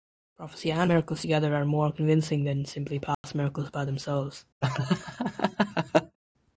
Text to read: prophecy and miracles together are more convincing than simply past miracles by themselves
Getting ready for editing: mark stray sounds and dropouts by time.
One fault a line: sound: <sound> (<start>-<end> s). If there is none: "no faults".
sound: dropout (3.1-3.2 s)
sound: laugh (4.6-6.2 s)